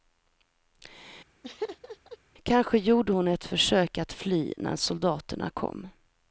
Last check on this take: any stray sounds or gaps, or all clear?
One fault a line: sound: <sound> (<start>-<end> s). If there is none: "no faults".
sound: laugh (1.4-2.2 s)